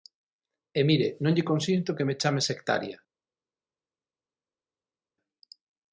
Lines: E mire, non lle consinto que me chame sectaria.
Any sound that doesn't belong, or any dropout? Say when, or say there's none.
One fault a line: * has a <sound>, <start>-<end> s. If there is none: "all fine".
all fine